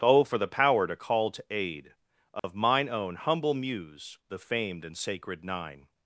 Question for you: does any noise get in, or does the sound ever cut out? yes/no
yes